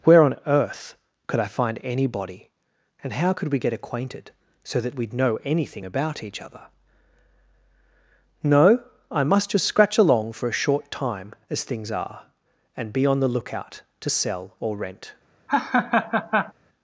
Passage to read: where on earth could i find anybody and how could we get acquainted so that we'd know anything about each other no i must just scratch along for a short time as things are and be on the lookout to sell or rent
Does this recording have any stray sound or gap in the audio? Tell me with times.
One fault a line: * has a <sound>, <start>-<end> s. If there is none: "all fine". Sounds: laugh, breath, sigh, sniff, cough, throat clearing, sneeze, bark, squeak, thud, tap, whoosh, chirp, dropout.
* has a laugh, 15.5-16.5 s